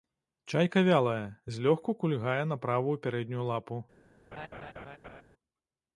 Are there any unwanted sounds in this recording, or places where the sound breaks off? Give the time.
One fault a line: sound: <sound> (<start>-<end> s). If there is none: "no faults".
sound: laugh (4.3-5.2 s)